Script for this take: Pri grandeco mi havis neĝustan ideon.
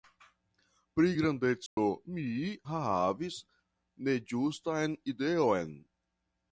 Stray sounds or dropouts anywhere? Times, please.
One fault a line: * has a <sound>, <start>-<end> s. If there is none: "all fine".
* has a dropout, 1.7-1.8 s